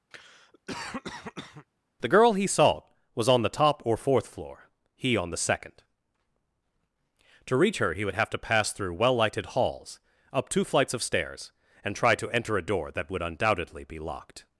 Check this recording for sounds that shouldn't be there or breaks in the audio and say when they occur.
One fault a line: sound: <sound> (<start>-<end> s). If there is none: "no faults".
sound: cough (0.1-1.7 s)